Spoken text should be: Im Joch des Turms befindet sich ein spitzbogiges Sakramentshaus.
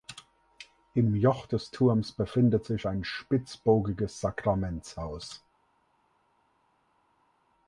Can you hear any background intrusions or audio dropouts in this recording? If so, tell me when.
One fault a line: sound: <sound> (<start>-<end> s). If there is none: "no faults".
no faults